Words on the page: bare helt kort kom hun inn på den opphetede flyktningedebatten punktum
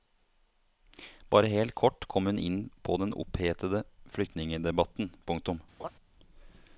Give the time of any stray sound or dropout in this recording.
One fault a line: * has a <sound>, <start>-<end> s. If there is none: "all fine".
* has a laugh, 5.8-5.9 s